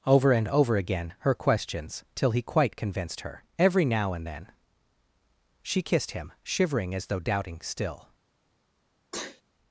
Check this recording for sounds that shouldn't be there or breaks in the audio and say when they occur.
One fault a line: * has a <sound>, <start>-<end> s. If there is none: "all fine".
* has a sneeze, 9.1-9.4 s